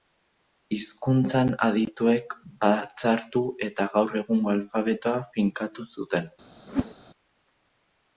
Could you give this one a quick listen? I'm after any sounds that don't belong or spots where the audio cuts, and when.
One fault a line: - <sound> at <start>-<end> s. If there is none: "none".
- whoosh at 6.7-6.9 s